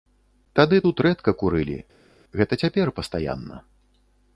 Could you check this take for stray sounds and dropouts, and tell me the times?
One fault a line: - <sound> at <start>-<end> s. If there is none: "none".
none